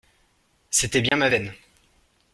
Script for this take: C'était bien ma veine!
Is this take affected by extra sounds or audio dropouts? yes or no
yes